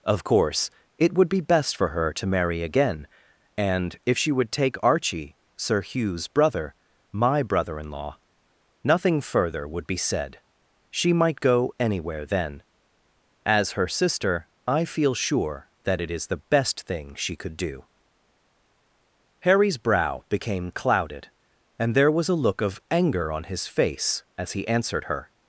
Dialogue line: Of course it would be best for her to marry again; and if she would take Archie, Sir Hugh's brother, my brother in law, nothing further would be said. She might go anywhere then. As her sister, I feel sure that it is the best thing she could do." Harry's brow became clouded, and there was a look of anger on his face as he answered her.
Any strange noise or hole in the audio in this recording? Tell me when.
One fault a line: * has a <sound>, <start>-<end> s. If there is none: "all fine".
all fine